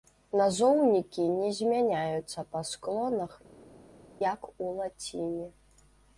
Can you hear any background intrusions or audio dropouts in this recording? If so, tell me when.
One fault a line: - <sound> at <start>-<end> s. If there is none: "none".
none